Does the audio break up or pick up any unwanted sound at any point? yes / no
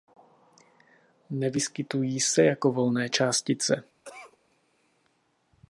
yes